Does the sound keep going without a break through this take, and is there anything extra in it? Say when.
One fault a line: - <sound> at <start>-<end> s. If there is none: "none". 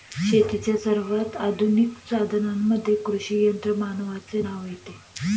none